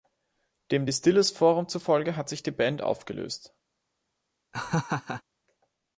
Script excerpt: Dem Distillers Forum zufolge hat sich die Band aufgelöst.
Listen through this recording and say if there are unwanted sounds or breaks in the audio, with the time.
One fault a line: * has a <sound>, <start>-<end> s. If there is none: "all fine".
* has a laugh, 4.5-5.2 s